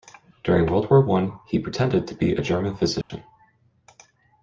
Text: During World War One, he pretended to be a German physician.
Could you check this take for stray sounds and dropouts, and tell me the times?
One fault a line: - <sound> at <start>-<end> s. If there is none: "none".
- dropout at 3.0-3.1 s